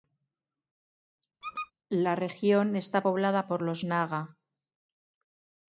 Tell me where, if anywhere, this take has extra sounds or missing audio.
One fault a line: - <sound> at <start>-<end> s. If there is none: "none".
- squeak at 1.4-1.7 s